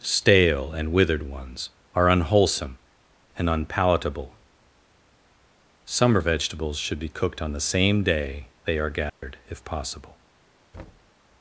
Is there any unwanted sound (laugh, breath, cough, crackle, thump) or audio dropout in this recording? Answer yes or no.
yes